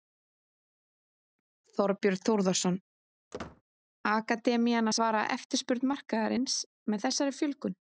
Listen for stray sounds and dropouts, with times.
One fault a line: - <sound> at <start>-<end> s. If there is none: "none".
- squeak at 3.3-3.6 s